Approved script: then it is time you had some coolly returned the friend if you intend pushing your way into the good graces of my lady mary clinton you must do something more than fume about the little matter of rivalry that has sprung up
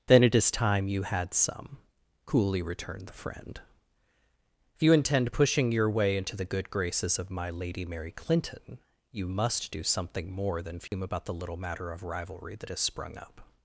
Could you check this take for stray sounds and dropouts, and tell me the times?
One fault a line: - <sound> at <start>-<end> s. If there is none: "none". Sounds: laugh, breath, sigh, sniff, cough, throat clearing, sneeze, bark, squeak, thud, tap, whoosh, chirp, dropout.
- dropout at 10.9-10.9 s